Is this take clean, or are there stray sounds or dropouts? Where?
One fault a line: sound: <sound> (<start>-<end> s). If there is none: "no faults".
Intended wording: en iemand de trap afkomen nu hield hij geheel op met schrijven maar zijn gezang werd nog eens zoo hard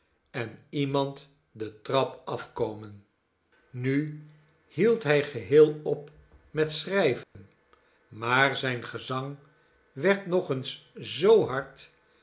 sound: dropout (7.2-7.3 s)